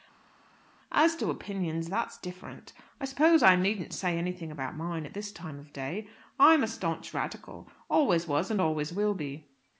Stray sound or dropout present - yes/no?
no